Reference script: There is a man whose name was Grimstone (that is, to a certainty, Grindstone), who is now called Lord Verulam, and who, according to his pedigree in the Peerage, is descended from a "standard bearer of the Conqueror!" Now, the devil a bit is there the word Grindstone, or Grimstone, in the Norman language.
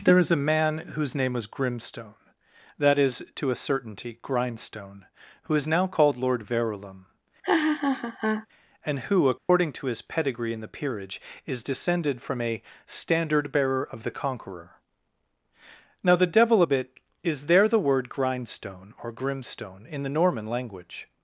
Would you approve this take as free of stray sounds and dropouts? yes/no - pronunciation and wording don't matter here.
no